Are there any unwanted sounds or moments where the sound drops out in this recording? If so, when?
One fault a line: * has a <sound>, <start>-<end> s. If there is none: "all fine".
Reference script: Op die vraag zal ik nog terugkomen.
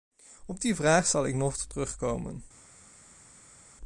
all fine